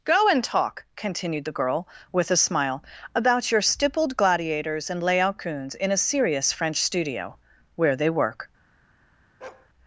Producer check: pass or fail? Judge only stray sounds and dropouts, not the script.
fail